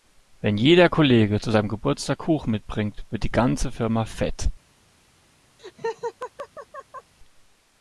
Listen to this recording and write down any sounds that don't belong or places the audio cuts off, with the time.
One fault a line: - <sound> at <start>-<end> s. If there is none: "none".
- laugh at 5.6-7.1 s